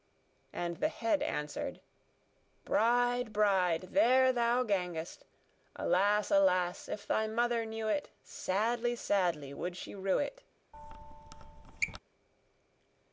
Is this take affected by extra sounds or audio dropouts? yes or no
yes